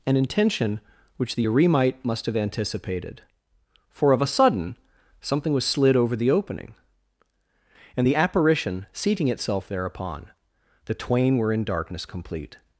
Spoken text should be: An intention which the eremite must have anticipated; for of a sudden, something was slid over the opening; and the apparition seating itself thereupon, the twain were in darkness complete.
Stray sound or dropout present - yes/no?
no